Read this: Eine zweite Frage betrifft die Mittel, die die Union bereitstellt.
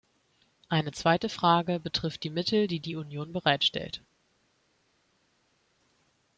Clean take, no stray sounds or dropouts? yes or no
yes